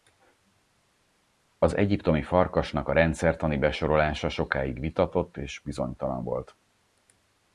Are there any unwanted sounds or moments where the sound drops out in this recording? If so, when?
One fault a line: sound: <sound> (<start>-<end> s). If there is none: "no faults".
no faults